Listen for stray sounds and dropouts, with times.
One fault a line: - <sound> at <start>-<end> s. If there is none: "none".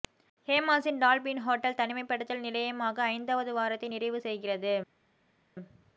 none